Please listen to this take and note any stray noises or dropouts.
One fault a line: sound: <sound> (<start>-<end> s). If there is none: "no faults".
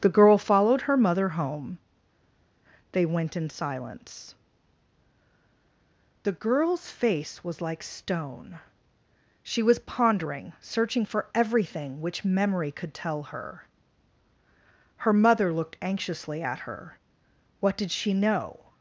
no faults